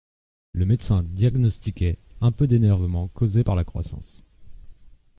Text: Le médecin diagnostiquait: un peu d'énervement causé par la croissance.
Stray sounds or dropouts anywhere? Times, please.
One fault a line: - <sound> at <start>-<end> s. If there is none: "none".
none